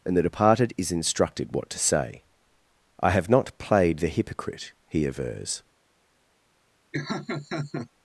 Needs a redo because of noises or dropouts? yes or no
yes